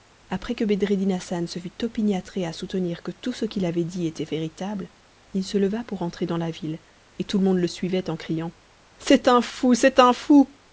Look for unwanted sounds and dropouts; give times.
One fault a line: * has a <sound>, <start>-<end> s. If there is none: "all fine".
all fine